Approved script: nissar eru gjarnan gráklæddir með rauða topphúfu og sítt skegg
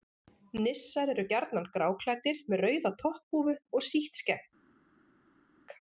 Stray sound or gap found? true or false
false